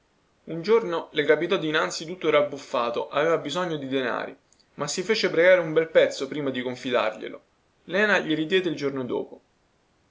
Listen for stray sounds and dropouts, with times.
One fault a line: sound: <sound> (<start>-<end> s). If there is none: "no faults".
no faults